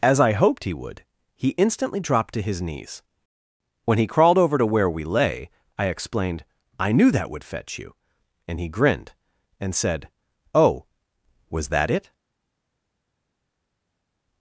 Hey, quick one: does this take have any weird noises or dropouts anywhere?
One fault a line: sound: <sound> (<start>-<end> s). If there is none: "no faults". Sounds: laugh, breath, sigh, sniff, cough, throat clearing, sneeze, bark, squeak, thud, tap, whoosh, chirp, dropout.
no faults